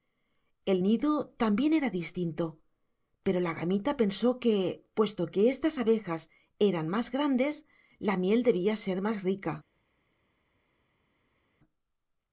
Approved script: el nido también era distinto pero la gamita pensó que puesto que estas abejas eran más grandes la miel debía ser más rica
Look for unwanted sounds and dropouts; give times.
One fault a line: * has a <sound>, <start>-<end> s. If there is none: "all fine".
all fine